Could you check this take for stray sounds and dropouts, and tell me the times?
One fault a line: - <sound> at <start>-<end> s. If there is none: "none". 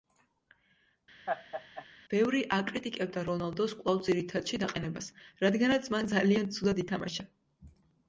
- laugh at 1.3-1.9 s